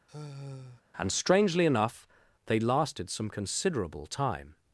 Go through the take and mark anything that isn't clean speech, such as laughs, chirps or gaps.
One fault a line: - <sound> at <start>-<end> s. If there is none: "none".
- sigh at 0.1-0.8 s